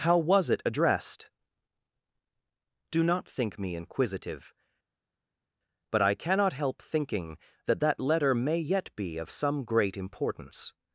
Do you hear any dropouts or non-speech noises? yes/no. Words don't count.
no